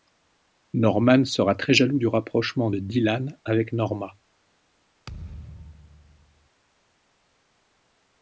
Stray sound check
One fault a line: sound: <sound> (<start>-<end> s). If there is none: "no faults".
sound: thud (5.1-6.5 s)